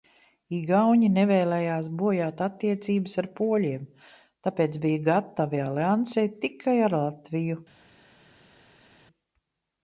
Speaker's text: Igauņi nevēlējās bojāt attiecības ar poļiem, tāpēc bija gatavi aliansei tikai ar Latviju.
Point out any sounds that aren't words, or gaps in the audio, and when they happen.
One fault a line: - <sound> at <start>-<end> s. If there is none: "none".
none